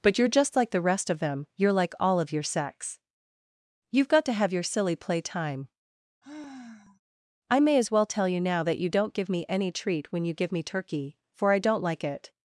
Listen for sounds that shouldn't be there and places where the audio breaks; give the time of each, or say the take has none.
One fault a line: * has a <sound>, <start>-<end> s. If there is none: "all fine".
* has a sigh, 6.2-7.0 s